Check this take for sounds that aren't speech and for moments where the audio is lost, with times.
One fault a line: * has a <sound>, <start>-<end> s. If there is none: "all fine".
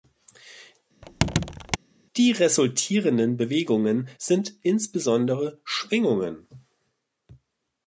* has a squeak, 1.0-1.8 s